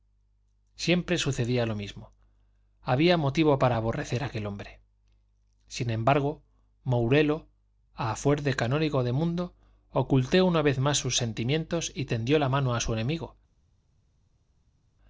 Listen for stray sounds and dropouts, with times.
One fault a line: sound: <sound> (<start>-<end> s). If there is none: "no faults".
no faults